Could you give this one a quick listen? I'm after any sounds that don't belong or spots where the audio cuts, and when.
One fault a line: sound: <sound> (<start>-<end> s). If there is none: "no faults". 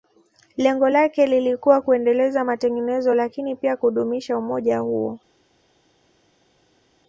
no faults